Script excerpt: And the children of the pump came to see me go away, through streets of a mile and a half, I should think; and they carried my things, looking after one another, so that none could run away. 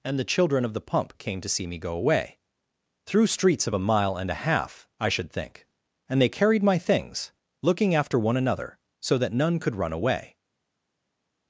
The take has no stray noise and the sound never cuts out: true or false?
true